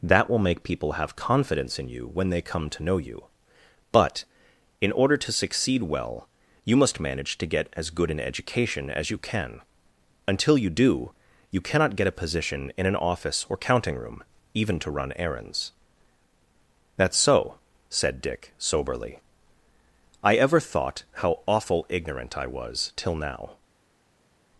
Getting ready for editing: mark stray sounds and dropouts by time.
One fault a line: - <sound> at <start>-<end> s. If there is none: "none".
none